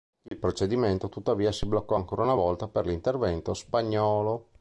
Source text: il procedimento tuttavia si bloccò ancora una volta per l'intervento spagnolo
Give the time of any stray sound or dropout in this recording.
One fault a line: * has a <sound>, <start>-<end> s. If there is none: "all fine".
* has a dropout, 0.3-0.3 s